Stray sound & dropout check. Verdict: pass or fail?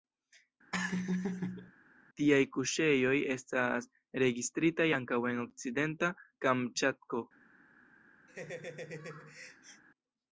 fail